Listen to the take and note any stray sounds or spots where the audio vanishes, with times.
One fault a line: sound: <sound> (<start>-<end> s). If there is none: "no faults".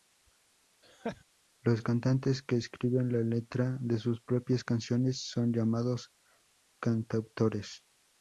sound: laugh (0.8-1.2 s)